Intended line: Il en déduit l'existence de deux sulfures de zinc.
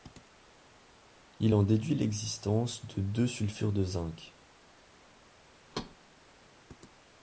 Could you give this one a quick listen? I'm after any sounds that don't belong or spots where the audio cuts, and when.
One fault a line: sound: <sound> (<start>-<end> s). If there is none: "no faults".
sound: thud (5.7-6.0 s)